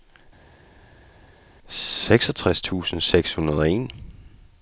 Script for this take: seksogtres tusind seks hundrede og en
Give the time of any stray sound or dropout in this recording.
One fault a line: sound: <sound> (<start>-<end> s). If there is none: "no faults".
no faults